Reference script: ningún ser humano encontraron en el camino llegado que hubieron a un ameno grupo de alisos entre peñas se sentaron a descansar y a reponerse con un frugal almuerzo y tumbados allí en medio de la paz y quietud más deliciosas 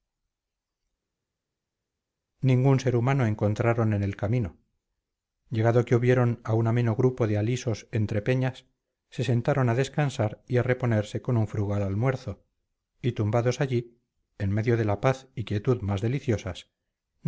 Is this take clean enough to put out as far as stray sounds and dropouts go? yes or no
yes